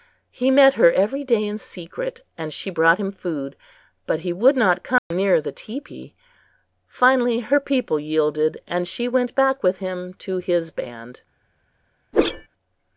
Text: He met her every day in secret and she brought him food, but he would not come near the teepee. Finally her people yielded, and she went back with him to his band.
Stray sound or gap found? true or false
true